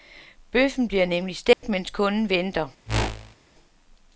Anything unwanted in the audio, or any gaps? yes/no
yes